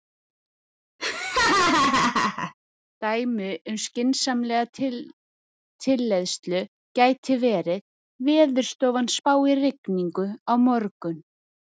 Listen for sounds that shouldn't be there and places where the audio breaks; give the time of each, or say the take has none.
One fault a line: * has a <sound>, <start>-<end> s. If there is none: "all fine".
* has a laugh, 1.0-2.5 s